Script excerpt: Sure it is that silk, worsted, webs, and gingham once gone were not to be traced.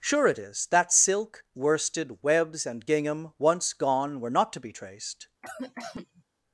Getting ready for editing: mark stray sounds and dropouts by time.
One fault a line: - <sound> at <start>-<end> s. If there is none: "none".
- cough at 5.4-6.2 s